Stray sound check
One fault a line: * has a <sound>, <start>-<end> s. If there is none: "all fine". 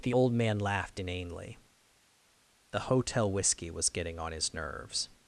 all fine